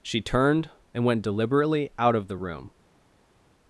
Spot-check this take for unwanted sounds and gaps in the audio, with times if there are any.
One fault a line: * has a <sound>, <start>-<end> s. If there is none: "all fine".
all fine